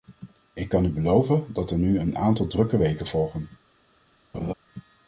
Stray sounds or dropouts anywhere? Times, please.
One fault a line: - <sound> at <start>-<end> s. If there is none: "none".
- laugh at 4.3-4.5 s